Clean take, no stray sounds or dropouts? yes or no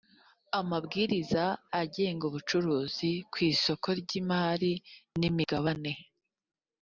yes